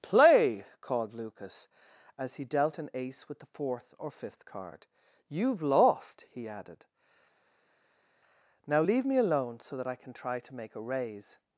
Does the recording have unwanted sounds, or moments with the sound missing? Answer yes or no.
no